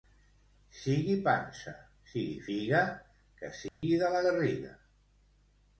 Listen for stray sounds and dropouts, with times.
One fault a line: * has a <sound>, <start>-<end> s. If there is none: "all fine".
* has a dropout, 3.7-3.8 s